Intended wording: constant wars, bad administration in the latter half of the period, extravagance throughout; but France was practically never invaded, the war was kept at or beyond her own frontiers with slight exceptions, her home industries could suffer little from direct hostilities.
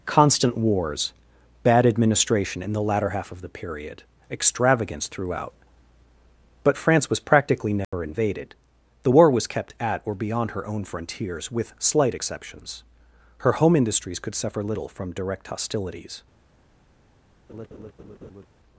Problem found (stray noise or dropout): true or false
true